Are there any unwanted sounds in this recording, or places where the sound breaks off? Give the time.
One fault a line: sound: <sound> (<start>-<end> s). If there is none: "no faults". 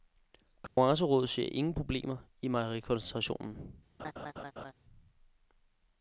sound: dropout (0.7-0.8 s)
sound: laugh (4.0-4.7 s)